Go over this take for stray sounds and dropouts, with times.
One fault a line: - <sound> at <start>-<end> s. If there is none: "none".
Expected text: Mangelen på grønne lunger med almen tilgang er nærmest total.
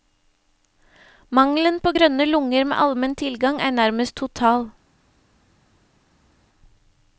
none